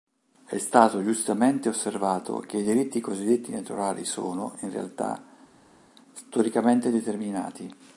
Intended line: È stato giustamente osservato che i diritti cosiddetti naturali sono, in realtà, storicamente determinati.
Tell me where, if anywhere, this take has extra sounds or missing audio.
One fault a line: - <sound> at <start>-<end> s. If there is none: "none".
none